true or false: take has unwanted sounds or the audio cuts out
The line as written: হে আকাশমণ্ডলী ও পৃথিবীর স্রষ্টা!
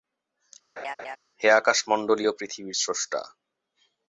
true